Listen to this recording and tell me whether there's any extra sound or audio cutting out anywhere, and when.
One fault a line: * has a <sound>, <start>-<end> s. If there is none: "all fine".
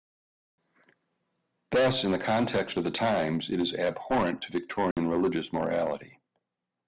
* has a dropout, 4.9-5.0 s